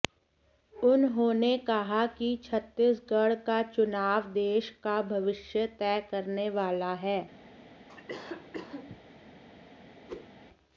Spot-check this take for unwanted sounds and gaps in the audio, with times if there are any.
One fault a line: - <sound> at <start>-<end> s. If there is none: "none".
- cough at 7.9-9.0 s
- whoosh at 10.1-10.3 s